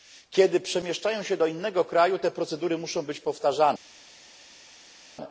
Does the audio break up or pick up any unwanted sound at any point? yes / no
no